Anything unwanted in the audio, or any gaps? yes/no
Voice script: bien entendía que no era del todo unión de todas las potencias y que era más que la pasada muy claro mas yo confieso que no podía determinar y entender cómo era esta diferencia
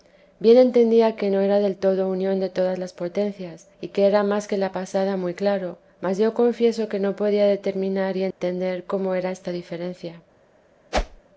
yes